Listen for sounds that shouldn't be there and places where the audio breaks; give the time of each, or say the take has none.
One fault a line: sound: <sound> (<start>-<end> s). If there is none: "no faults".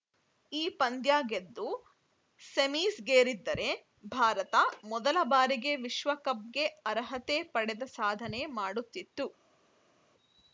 no faults